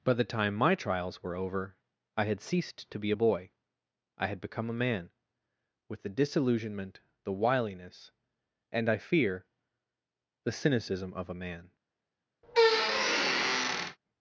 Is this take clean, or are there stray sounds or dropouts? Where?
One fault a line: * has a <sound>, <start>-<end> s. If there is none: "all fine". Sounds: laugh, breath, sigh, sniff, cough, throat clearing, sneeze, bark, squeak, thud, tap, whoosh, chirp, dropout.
* has a squeak, 12.4-14.0 s